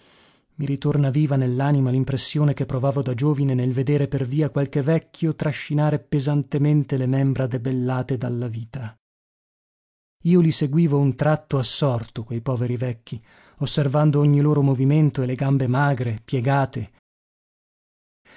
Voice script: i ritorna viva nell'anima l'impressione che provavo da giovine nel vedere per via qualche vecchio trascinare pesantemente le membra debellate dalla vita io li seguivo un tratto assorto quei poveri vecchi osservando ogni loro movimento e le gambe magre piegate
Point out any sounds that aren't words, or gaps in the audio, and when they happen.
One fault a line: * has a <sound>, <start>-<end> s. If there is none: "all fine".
all fine